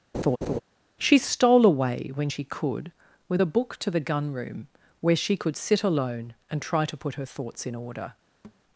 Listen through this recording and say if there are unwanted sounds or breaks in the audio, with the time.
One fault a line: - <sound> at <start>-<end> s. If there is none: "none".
- laugh at 0.1-0.6 s
- thud at 8.4-8.6 s